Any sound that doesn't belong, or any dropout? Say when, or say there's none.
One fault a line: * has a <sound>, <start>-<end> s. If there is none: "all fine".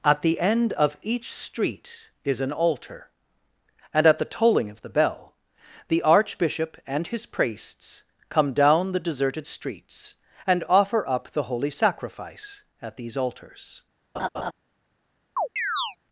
* has a laugh, 14.1-14.5 s
* has a chirp, 15.4-16.0 s